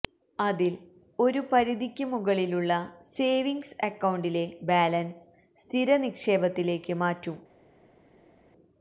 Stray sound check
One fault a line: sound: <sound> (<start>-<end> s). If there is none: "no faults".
no faults